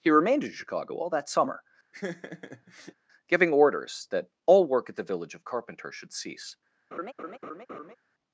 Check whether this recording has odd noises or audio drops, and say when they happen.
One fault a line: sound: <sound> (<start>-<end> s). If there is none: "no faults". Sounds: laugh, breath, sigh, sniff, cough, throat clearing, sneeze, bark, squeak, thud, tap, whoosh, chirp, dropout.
sound: laugh (1.9-2.9 s)
sound: laugh (6.9-8.0 s)